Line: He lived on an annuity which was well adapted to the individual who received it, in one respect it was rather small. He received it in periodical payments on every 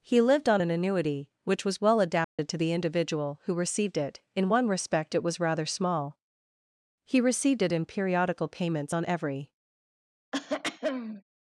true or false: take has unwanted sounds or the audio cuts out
true